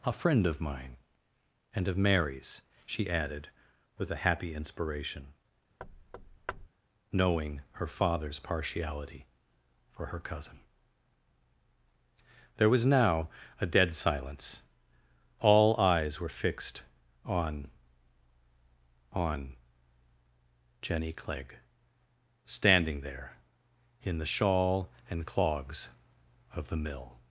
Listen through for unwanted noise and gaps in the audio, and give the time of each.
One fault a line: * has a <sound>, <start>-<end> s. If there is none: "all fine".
* has a thud, 5.8-6.7 s